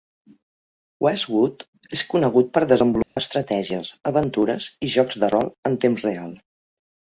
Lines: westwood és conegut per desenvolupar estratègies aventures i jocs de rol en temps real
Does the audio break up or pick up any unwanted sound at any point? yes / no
yes